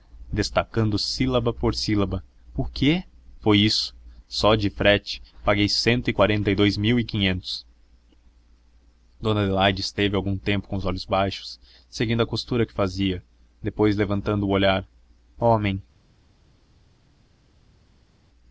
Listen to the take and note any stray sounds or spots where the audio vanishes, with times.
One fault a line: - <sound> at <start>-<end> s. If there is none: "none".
none